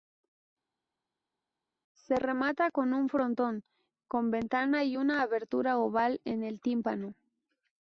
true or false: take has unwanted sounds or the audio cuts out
false